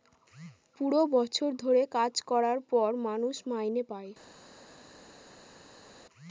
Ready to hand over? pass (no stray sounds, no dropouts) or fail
pass